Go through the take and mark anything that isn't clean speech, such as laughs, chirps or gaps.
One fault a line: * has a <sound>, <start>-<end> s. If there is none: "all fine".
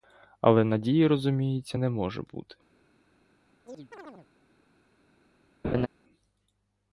* has a chirp, 3.7-4.3 s
* has a laugh, 5.6-5.9 s